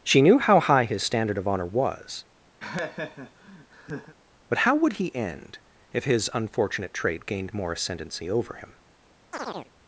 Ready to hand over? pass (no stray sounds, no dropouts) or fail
fail